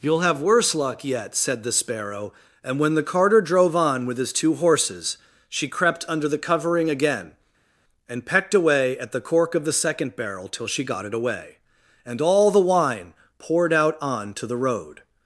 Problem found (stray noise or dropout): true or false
false